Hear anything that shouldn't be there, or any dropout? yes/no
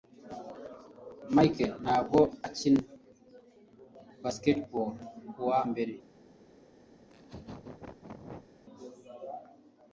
yes